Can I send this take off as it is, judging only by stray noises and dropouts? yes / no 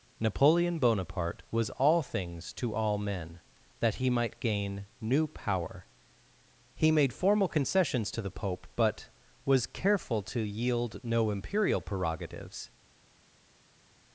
yes